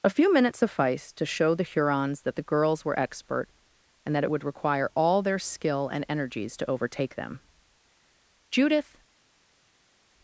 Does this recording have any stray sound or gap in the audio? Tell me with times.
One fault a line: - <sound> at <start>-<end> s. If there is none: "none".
none